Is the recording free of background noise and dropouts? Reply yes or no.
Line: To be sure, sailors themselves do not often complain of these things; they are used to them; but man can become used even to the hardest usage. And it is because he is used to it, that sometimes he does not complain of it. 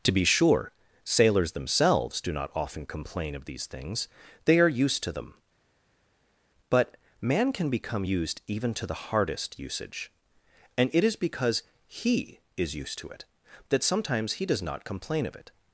yes